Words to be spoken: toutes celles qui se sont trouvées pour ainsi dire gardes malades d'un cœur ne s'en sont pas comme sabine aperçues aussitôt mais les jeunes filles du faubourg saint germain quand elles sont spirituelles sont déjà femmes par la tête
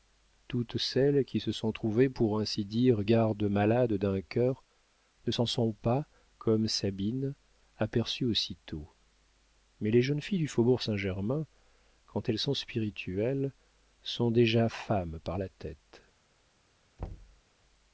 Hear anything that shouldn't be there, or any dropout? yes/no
yes